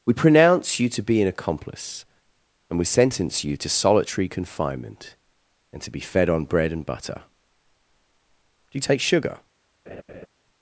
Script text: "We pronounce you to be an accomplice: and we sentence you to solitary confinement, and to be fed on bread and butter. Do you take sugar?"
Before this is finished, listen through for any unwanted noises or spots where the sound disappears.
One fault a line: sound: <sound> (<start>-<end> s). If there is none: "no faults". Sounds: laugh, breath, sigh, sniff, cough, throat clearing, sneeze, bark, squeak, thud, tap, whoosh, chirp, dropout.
sound: laugh (9.9-10.3 s)